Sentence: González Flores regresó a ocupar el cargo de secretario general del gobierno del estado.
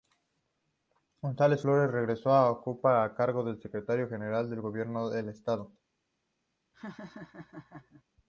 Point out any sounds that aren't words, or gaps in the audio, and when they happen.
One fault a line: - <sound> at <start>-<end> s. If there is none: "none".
- laugh at 6.7-8.0 s